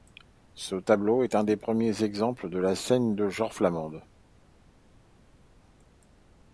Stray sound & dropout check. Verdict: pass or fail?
pass